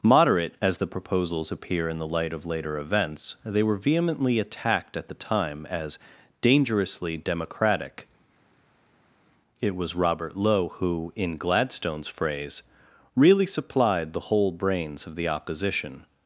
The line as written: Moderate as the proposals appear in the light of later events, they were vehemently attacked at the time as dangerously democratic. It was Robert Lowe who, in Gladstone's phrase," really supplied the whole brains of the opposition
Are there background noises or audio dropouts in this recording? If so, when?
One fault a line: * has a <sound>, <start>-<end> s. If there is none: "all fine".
all fine